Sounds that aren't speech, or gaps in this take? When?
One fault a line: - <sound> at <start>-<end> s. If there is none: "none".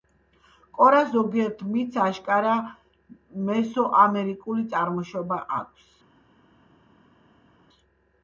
none